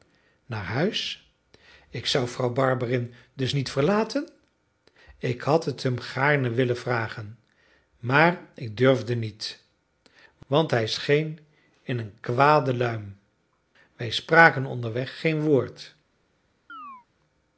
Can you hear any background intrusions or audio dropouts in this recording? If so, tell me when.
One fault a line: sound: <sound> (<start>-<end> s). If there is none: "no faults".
sound: chirp (16.7-17.1 s)